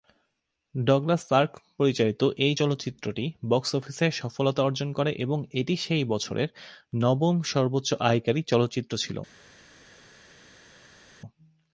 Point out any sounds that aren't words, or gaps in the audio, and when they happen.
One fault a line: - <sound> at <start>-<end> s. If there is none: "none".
none